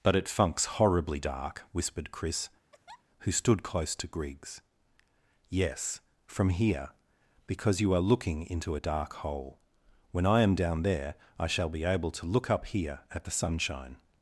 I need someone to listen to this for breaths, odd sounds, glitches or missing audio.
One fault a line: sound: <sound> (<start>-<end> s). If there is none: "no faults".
sound: laugh (2.7-3.0 s)